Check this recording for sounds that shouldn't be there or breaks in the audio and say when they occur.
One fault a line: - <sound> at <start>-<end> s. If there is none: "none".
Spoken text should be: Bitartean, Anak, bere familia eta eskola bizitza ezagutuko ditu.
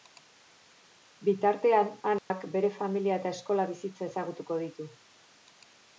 - dropout at 2.2-2.3 s